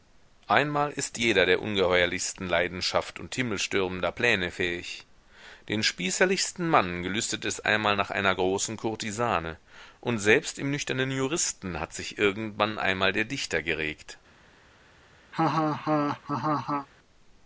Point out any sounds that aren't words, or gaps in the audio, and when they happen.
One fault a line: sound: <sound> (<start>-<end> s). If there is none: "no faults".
sound: laugh (15.3-16.9 s)